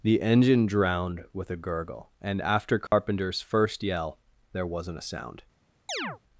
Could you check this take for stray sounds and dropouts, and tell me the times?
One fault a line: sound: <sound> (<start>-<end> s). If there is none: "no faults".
sound: dropout (2.9-2.9 s)
sound: chirp (5.9-6.2 s)